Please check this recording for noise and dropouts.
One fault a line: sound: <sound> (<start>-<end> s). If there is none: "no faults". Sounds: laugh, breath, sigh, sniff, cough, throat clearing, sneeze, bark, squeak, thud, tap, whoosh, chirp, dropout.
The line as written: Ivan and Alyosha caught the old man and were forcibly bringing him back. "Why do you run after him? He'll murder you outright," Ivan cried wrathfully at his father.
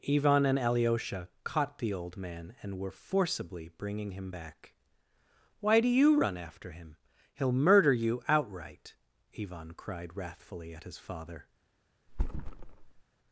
sound: thud (12.1-13.0 s)